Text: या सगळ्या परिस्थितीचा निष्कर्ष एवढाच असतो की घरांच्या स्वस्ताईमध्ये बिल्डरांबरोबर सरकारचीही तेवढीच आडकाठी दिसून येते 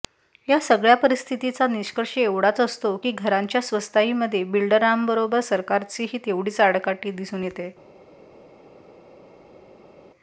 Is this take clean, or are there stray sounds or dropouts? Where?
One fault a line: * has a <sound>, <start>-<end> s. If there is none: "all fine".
all fine